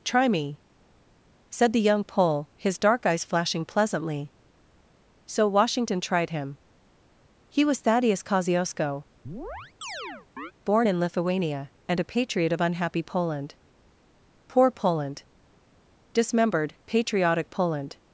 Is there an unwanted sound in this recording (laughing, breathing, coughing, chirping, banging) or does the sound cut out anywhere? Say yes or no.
yes